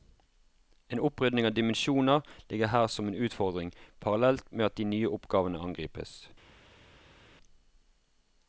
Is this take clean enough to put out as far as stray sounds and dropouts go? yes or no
yes